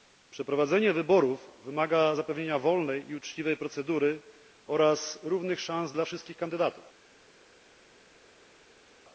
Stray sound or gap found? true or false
false